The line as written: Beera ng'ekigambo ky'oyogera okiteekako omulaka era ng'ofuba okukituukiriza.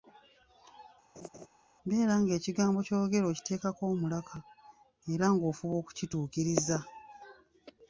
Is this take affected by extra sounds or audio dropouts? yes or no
yes